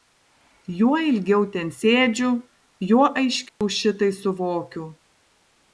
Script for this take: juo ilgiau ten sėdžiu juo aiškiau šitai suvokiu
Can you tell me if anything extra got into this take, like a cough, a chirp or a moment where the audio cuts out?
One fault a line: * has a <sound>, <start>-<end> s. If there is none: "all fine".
* has a dropout, 3.5-3.6 s